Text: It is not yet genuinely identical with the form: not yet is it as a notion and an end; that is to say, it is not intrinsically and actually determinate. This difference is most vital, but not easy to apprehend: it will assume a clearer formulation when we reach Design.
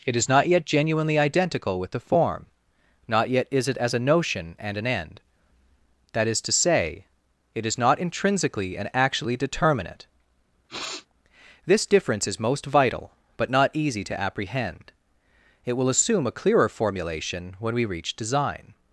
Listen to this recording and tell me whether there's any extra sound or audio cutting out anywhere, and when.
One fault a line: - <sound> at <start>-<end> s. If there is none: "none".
- sniff at 10.7-11.1 s